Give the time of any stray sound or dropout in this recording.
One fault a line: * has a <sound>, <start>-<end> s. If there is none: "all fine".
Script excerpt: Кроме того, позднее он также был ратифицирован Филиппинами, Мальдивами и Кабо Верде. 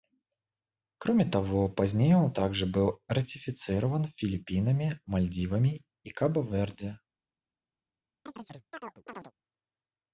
* has a chirp, 8.3-9.3 s